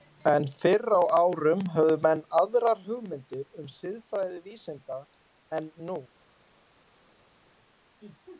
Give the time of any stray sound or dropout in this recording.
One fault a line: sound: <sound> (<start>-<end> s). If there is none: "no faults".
no faults